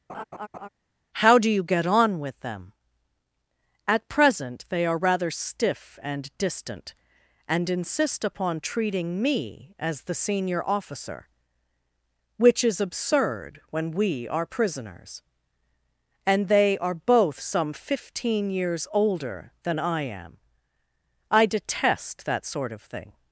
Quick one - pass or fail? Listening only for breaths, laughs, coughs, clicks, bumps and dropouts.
fail